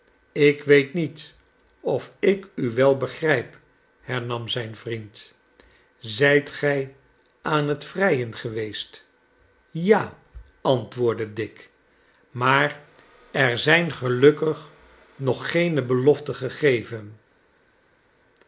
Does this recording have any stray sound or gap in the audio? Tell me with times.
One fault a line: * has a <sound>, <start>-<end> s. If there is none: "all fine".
all fine